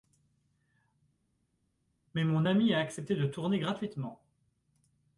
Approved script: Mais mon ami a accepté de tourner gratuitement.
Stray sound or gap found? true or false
false